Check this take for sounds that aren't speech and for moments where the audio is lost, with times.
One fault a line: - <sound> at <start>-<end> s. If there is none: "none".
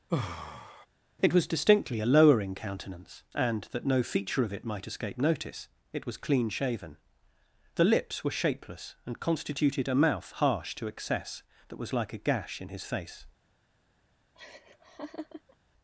- sigh at 0.1-0.9 s
- laugh at 14.4-15.6 s